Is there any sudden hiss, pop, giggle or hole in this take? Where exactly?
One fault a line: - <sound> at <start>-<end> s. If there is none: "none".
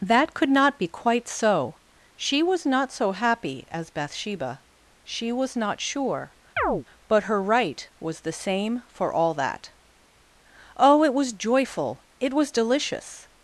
- chirp at 6.6-6.9 s